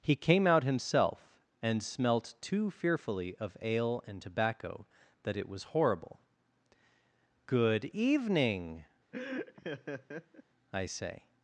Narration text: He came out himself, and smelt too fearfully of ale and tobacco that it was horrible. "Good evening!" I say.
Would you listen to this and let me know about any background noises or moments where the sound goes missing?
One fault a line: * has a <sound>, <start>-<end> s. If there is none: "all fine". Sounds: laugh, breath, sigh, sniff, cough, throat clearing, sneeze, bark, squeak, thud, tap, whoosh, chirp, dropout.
* has a laugh, 9.1-10.4 s